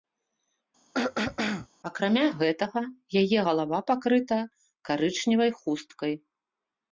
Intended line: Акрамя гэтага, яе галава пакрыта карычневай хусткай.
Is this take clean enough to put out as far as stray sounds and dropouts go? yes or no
no